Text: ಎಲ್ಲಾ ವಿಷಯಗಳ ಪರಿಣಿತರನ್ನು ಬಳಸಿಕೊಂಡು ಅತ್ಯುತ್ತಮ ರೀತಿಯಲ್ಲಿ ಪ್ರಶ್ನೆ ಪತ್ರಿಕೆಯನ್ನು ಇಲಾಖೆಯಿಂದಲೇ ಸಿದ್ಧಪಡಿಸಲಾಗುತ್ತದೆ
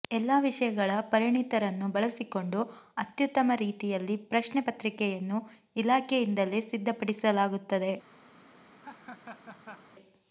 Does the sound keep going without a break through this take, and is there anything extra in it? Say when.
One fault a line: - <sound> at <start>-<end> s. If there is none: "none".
- laugh at 8.8-9.9 s